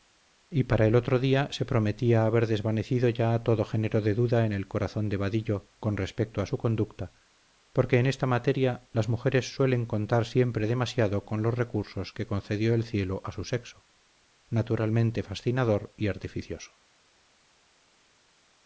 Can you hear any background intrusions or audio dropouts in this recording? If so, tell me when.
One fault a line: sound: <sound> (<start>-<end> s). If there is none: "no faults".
no faults